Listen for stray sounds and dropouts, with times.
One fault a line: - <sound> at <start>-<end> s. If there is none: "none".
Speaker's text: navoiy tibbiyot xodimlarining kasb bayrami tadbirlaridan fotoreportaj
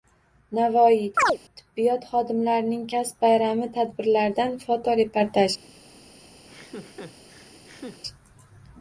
- chirp at 1.2-1.4 s
- laugh at 6.5-8.0 s